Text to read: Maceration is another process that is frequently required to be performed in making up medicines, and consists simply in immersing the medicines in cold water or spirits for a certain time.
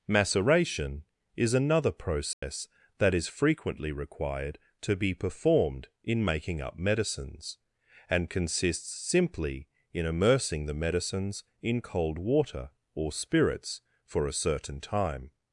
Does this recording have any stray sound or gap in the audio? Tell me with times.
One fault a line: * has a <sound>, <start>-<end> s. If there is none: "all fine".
* has a dropout, 2.3-2.4 s